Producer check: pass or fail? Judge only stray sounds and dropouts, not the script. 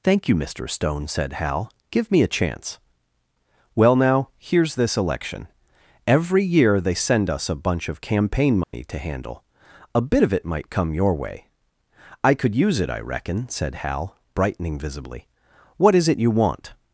fail